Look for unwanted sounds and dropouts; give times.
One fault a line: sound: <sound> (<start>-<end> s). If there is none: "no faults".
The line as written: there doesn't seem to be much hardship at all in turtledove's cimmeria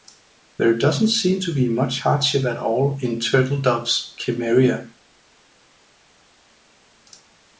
no faults